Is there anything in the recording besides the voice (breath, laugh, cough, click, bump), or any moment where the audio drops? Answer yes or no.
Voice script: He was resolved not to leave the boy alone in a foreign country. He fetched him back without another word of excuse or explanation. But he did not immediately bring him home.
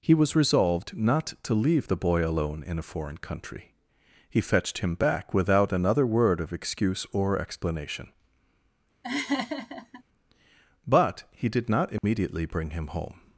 yes